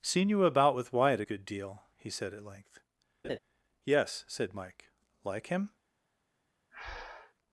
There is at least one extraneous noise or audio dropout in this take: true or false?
true